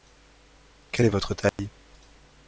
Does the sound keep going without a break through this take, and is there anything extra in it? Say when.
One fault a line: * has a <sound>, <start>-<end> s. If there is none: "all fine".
* has a dropout, 1.5-1.6 s